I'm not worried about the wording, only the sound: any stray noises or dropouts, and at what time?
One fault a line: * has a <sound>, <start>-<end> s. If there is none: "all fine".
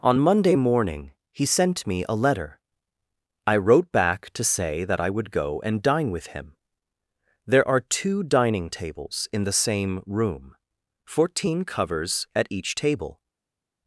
all fine